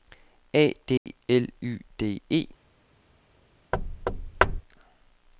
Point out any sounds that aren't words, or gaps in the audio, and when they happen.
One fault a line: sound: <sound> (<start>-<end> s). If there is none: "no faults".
sound: dropout (1.0-1.1 s)
sound: thud (3.7-4.6 s)